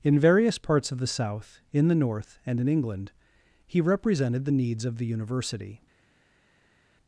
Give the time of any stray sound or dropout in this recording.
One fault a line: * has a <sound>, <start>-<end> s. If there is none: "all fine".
all fine